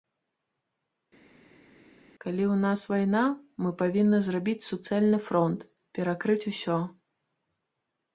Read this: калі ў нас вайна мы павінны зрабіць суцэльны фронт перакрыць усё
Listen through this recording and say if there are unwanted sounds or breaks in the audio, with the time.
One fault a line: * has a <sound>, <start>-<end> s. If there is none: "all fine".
all fine